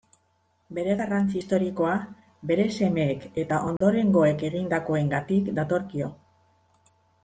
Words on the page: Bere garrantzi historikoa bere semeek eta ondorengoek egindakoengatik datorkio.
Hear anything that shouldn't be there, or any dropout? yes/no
yes